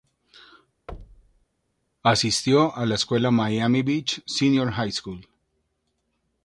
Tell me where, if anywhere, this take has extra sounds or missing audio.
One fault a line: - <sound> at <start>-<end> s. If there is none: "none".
- thud at 0.9-1.5 s